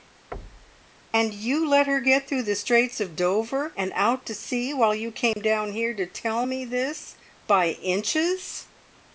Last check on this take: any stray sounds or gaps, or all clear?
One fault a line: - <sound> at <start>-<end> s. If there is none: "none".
- thud at 0.3-0.9 s
- dropout at 5.3-5.4 s